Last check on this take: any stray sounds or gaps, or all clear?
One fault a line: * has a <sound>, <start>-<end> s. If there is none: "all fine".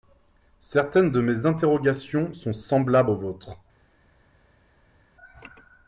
all fine